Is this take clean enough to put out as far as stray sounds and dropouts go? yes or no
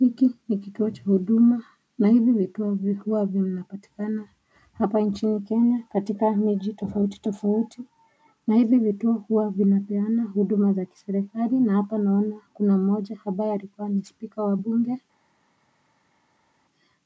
yes